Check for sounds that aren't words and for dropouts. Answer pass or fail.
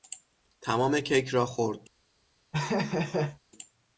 fail